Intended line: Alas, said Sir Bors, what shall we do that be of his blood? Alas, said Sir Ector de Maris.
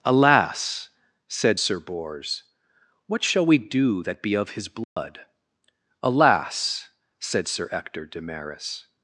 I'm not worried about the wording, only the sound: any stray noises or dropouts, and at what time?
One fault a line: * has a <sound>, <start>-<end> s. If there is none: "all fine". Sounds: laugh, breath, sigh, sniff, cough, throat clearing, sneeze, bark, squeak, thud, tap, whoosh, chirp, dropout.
* has a dropout, 4.8-5.0 s